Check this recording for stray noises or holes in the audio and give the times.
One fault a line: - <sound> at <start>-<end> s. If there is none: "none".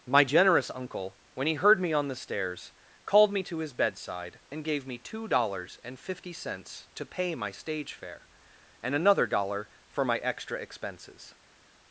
none